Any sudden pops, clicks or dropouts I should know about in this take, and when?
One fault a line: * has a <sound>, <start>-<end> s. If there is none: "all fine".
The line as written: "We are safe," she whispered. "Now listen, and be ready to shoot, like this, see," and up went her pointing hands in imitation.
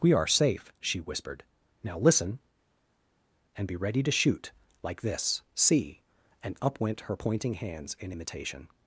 all fine